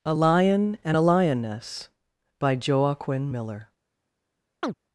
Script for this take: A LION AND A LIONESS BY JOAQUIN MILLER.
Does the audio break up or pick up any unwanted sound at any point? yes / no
yes